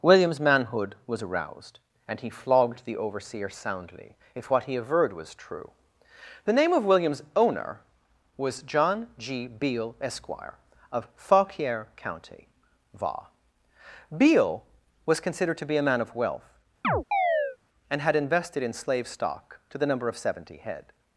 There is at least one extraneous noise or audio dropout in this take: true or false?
true